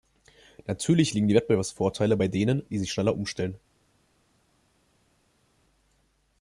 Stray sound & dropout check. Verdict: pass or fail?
pass